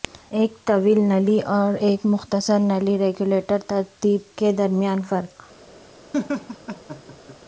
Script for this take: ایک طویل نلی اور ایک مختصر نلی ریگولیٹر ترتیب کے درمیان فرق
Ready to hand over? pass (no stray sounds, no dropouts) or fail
fail